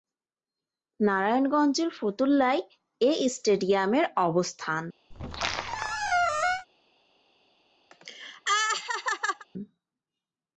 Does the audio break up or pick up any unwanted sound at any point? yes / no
yes